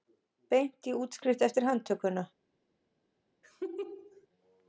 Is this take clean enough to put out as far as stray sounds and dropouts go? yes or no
no